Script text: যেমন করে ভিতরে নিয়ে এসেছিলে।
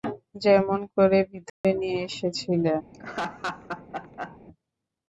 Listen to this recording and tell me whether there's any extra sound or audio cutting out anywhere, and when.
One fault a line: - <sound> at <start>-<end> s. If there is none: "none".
- dropout at 1.5-1.6 s
- laugh at 2.9-4.4 s